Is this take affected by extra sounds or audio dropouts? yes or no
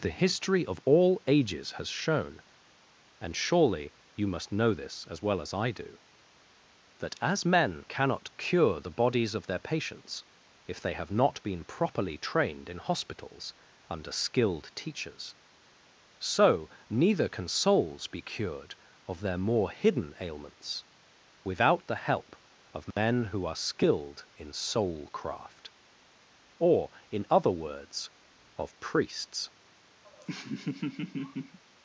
yes